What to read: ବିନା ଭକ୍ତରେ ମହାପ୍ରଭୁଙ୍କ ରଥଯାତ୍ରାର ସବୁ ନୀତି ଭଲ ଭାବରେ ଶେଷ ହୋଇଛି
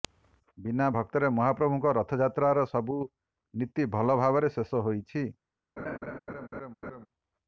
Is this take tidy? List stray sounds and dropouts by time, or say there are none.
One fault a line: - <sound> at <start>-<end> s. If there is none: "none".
- laugh at 5.8-7.1 s